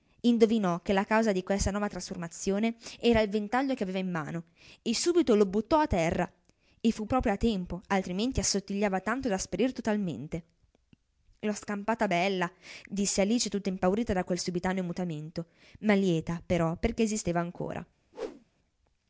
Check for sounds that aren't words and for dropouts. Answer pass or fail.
fail